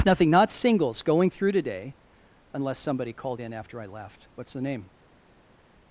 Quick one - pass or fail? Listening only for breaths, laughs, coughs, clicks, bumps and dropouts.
pass